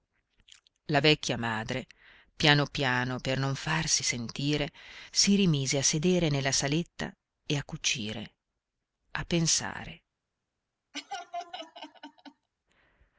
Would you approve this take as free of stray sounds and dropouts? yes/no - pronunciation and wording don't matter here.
no